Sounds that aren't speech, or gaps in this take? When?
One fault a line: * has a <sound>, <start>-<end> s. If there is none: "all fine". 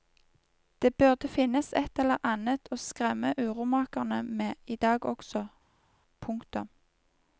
all fine